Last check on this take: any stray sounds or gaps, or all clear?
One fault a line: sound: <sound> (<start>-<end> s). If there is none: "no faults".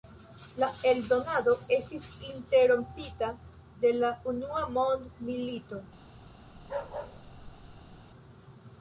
sound: bark (6.6-8.0 s)